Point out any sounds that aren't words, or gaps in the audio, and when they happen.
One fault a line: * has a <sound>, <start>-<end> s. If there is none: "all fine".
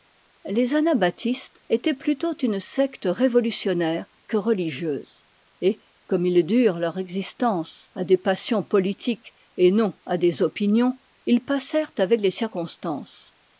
all fine